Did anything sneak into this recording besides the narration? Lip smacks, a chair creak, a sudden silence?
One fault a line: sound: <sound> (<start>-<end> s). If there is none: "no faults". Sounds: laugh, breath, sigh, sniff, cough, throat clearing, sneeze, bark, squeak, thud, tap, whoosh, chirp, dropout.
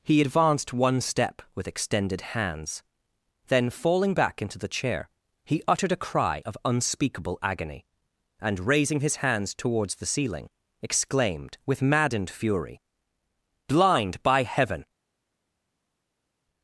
no faults